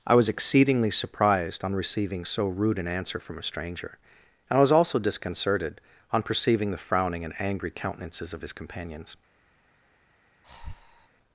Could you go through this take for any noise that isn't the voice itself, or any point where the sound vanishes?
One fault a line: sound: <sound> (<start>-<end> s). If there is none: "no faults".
sound: breath (10.4-11.1 s)